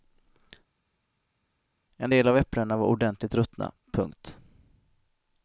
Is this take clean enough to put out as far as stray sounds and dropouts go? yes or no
yes